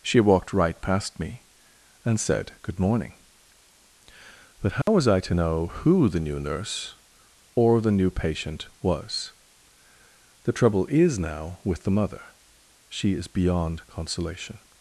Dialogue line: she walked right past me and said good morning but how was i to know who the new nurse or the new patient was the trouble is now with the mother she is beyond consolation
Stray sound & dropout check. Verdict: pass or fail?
fail